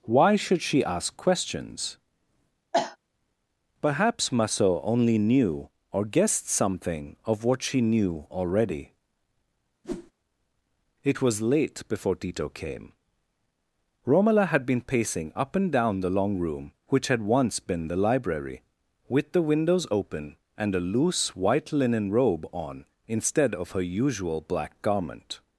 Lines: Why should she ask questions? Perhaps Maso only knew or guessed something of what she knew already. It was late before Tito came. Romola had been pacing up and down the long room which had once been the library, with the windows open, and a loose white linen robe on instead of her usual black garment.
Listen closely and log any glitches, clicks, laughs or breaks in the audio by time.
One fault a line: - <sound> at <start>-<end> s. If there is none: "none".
- cough at 2.7-3.0 s
- whoosh at 9.8-10.1 s